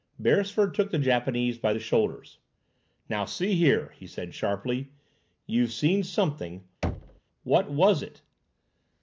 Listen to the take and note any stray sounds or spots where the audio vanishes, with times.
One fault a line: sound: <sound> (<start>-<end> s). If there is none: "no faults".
sound: thud (6.8-7.2 s)